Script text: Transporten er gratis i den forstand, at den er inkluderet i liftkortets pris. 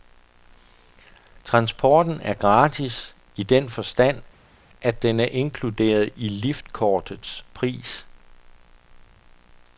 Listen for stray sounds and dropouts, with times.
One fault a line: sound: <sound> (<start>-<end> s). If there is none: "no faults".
no faults